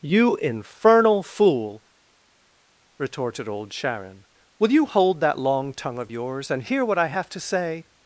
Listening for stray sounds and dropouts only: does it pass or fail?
pass